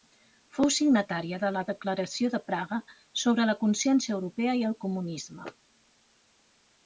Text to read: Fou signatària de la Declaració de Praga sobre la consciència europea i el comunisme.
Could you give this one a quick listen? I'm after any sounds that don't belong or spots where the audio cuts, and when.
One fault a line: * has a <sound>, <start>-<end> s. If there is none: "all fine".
all fine